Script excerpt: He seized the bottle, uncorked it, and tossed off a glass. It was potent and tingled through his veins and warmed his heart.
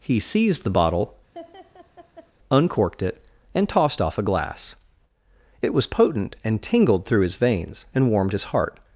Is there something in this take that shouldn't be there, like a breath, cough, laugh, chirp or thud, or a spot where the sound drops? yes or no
yes